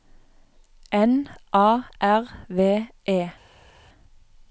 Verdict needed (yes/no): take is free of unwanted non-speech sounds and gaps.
yes